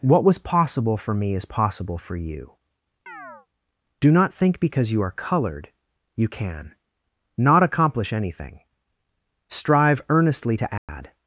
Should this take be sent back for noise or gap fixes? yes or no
yes